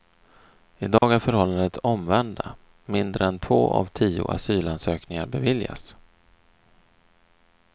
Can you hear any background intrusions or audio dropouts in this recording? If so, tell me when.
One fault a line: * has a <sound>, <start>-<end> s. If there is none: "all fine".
* has a dropout, 1.0-1.0 s